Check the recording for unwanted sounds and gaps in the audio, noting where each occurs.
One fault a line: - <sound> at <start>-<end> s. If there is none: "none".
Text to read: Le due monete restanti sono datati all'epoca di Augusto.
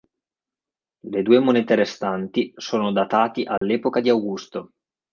- dropout at 3.6-3.6 s